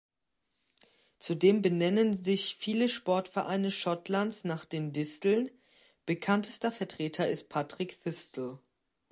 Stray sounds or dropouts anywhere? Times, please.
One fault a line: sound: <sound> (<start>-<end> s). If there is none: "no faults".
no faults